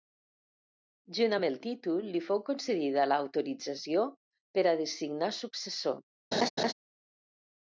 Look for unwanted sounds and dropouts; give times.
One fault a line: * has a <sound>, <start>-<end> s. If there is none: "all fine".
* has a laugh, 6.3-6.7 s